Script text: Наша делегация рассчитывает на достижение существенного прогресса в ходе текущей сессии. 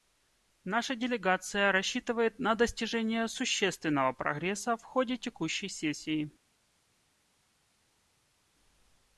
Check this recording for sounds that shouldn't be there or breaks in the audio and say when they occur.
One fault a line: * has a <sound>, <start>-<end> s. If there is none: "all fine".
all fine